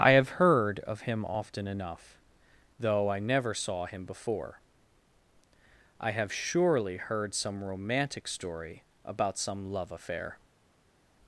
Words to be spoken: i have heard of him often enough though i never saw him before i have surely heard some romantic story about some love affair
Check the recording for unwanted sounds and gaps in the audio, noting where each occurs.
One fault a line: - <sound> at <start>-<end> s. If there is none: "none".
none